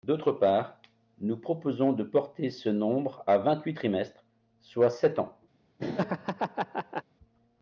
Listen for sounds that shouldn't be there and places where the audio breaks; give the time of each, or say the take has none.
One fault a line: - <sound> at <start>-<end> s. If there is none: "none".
- laugh at 5.8-7.0 s